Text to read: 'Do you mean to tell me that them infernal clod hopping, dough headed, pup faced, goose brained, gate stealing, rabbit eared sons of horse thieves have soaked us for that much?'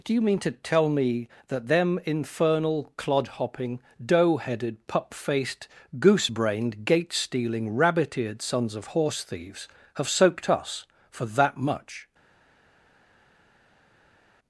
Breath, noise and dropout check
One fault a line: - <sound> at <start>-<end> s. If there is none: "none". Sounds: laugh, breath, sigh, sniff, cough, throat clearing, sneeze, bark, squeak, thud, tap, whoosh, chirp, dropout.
none